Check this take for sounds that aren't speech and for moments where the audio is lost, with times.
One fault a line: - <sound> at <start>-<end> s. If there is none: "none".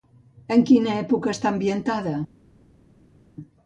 none